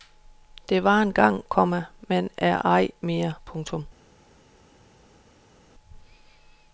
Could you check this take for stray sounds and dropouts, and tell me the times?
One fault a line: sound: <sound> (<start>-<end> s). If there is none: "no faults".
no faults